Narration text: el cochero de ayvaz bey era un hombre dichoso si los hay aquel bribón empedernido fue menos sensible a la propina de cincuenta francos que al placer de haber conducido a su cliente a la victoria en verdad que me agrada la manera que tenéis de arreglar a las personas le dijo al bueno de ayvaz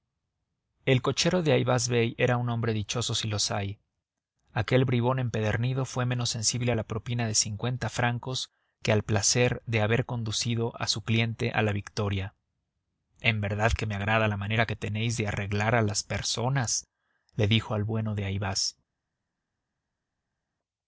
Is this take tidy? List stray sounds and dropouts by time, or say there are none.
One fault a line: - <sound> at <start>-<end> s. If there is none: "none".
none